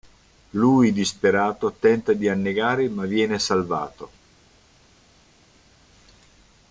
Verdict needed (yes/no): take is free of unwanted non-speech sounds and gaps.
yes